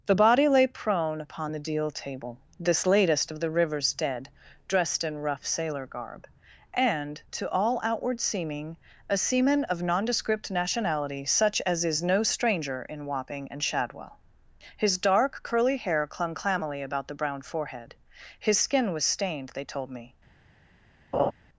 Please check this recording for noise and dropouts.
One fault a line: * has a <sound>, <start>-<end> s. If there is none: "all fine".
* has a laugh, 21.1-21.3 s